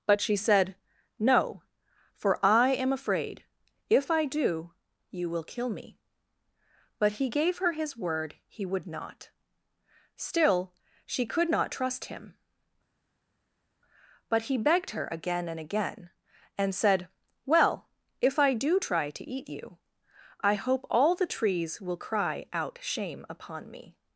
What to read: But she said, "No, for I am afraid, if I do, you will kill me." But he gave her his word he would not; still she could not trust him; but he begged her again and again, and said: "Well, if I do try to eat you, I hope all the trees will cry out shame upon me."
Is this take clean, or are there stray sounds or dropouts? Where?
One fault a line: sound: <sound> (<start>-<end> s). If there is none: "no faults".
no faults